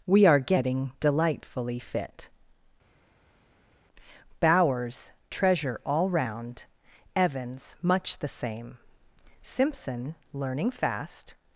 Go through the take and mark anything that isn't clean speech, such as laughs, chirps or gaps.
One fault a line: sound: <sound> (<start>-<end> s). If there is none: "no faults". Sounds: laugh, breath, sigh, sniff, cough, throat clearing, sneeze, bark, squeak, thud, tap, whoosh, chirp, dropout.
no faults